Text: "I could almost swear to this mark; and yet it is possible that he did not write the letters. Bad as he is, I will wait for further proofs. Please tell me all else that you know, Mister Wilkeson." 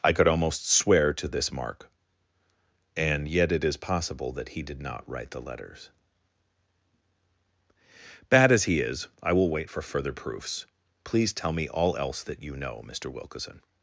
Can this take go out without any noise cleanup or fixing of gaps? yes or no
yes